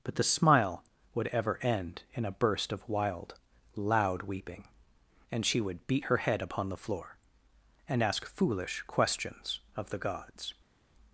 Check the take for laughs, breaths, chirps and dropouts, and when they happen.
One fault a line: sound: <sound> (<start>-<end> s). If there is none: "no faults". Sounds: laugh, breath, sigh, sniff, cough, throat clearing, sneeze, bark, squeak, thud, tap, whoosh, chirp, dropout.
no faults